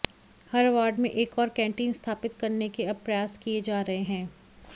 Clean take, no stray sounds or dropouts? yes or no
yes